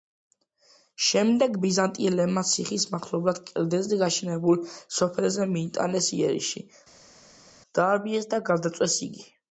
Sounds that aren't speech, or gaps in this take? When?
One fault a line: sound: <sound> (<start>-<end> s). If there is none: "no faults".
no faults